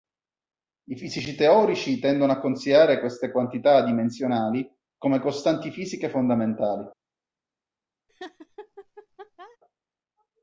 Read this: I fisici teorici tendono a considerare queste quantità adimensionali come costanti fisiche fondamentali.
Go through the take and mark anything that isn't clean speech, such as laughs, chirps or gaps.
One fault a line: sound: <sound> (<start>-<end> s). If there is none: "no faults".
sound: laugh (8.1-9.6 s)